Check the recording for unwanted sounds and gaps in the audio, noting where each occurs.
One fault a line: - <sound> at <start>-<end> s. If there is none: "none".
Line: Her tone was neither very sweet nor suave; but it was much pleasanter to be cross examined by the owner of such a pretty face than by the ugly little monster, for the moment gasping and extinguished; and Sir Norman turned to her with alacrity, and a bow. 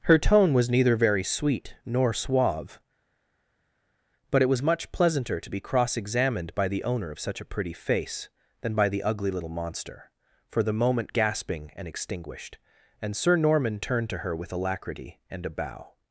none